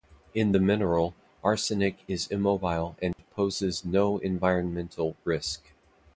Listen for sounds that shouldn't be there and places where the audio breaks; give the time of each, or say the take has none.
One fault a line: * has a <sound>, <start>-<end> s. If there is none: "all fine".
* has a dropout, 3.1-3.2 s